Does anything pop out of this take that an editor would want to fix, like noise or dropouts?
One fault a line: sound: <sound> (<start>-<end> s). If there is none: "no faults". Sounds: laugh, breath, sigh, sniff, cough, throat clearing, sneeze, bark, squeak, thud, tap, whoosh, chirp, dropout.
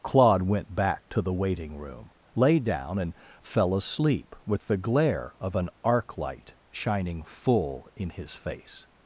no faults